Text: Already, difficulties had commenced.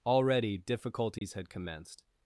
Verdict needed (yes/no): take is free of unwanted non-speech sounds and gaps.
no